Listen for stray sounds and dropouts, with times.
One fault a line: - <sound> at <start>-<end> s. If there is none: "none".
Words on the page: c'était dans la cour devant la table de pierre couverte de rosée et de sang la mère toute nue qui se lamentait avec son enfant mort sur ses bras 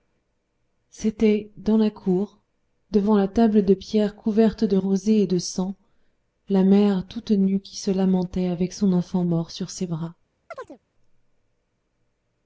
- chirp at 10.5-10.8 s